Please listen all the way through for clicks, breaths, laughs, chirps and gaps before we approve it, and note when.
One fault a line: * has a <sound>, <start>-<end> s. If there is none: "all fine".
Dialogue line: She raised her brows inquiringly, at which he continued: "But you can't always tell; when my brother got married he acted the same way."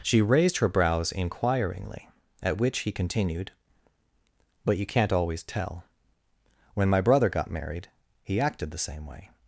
all fine